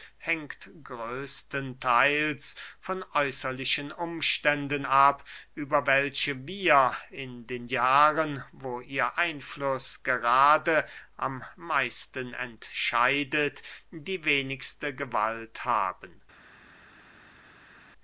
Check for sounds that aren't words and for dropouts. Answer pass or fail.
pass